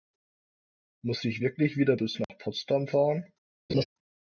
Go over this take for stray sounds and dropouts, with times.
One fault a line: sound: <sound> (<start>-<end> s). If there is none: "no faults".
sound: dropout (2.2-2.3 s)
sound: laugh (3.7-3.8 s)